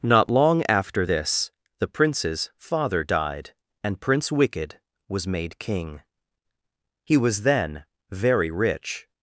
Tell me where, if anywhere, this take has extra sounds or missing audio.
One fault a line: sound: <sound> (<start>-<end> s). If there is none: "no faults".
no faults